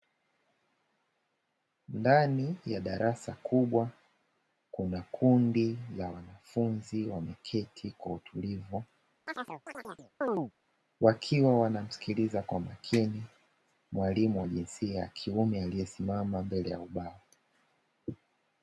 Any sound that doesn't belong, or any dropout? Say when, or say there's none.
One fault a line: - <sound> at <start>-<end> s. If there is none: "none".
- chirp at 9.3-10.5 s